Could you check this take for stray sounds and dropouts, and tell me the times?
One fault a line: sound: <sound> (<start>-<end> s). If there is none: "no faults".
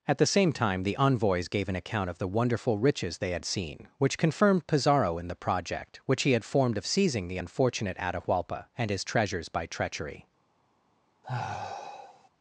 sound: sigh (11.2-12.3 s)